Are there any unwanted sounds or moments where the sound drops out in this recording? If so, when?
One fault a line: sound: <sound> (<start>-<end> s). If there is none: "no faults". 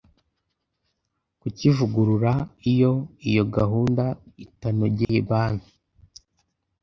sound: dropout (5.0-5.1 s)